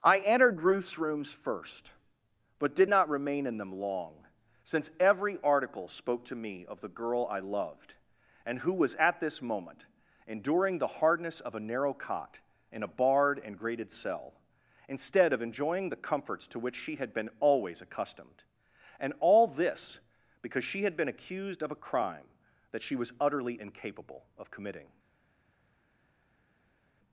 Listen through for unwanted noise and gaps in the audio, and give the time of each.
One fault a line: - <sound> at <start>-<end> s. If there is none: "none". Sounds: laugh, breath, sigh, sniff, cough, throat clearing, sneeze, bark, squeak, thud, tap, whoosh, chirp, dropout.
none